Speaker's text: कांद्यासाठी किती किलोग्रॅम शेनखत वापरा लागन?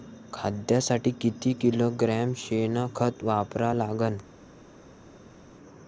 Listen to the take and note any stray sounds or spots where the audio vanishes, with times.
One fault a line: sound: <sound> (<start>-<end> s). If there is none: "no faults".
no faults